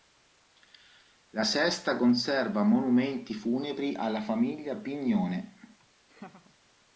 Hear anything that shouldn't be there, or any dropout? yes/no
yes